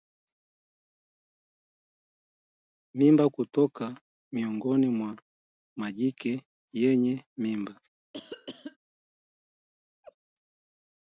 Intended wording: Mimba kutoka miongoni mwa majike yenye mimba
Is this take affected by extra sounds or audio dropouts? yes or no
yes